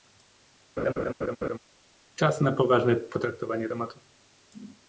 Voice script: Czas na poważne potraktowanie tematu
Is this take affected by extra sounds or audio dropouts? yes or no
yes